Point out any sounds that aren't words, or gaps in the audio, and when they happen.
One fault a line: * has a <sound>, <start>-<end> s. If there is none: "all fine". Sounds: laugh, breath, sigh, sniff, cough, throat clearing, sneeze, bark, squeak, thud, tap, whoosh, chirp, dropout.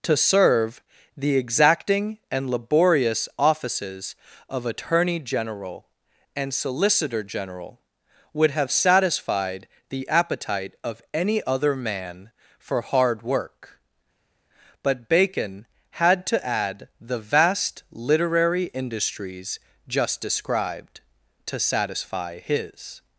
all fine